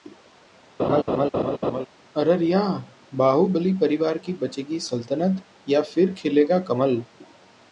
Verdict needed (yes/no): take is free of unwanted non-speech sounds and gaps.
no